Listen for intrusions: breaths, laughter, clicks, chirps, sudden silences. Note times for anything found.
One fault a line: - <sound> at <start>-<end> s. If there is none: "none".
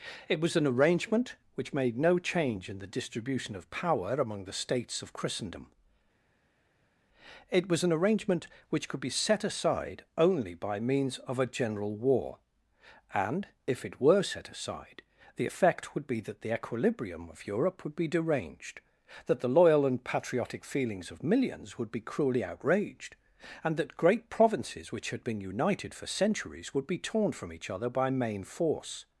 none